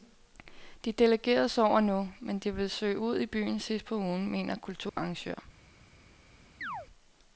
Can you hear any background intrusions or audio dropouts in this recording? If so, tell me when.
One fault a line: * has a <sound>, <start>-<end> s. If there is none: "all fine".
* has a dropout, 4.9-5.0 s
* has a chirp, 6.6-6.9 s